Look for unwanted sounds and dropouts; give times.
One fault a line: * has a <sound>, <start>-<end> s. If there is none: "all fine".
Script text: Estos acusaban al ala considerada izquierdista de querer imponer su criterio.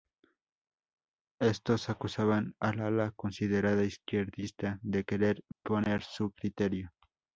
* has a dropout, 5.5-5.6 s